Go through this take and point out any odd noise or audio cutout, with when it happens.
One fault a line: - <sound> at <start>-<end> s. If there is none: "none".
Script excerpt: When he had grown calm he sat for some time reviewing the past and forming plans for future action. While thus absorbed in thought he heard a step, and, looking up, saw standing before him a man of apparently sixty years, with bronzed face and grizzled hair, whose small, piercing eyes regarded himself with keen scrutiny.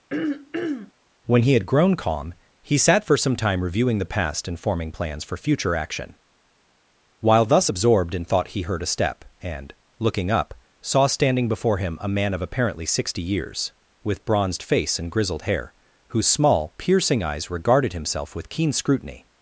- throat clearing at 0.1-0.9 s